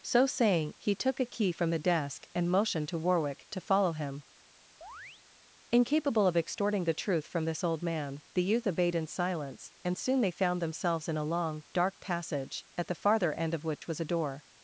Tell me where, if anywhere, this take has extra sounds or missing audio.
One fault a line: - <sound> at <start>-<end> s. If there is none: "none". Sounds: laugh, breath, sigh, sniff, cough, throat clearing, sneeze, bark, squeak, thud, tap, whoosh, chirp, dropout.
- chirp at 4.8-5.2 s
- dropout at 13.8-13.8 s